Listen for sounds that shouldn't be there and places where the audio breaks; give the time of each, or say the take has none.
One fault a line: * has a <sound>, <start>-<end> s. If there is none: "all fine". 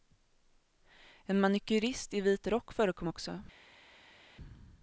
all fine